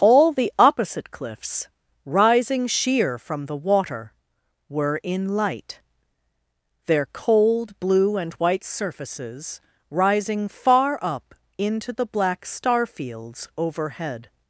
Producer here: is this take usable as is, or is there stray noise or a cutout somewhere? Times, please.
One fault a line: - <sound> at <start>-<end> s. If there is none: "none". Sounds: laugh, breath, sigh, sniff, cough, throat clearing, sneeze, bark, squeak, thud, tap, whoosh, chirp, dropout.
none